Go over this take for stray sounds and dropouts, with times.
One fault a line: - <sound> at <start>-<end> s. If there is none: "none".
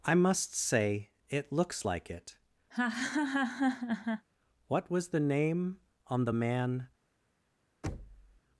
- laugh at 2.7-4.3 s
- thud at 7.8-8.4 s